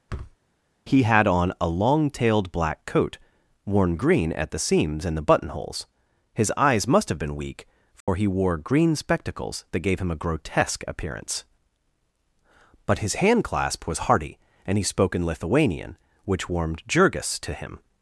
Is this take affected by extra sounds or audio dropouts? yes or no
yes